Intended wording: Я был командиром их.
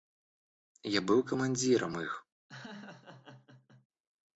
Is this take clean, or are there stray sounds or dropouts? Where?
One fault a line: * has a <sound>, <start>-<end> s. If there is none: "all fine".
* has a laugh, 2.5-3.9 s